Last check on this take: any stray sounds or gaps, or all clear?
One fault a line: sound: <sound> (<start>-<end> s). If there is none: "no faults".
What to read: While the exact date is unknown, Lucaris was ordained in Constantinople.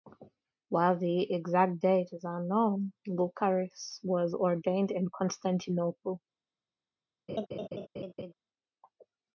sound: laugh (7.3-8.3 s)